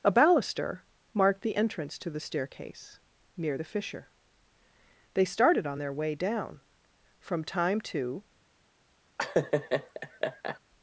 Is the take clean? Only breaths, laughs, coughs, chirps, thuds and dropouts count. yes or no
no